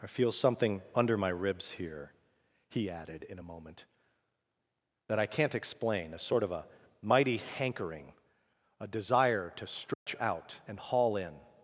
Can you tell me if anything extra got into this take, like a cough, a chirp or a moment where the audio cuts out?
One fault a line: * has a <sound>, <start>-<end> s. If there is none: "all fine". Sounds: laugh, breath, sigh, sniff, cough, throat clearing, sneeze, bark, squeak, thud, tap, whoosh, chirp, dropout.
* has a dropout, 9.9-10.1 s